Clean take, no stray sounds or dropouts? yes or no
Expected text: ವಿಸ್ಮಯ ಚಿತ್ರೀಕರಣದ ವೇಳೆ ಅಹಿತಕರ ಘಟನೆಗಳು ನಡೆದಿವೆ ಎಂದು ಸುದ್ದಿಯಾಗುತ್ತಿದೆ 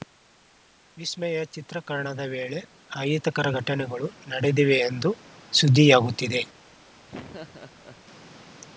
no